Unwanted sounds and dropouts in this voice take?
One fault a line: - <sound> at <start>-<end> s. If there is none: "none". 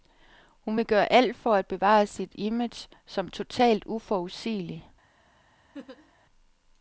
- laugh at 5.7-6.1 s